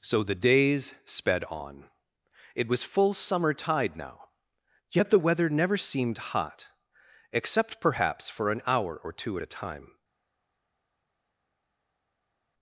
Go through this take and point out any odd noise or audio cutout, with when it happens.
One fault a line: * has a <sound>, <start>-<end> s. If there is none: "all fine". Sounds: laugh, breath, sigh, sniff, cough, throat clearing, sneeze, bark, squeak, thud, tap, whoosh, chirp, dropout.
all fine